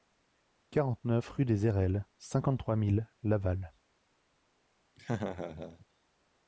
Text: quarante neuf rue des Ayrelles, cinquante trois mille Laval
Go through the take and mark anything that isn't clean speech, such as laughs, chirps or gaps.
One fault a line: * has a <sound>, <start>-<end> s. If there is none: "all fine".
* has a laugh, 5.0-5.9 s